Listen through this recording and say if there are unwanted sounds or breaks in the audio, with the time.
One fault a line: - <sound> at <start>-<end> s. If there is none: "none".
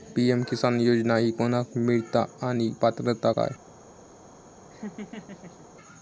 - laugh at 4.7-5.7 s